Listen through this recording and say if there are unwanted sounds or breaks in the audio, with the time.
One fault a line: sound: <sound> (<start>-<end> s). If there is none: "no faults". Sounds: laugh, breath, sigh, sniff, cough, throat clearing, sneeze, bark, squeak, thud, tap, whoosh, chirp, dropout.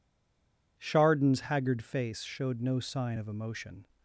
no faults